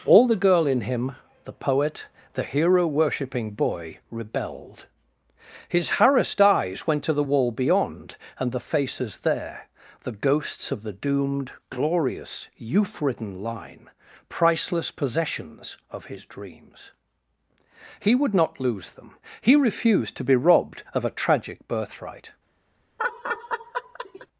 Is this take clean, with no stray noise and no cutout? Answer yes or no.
no